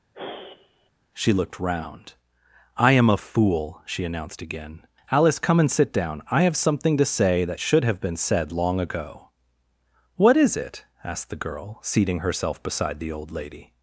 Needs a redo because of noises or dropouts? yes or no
yes